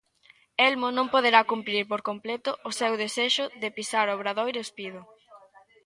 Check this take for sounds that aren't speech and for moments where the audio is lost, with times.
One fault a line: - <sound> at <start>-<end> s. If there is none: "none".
none